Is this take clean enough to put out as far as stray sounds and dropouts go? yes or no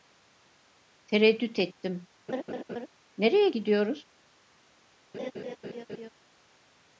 no